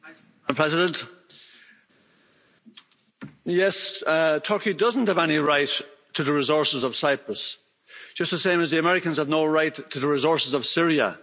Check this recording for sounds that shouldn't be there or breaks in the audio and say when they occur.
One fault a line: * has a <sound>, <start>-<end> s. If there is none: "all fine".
all fine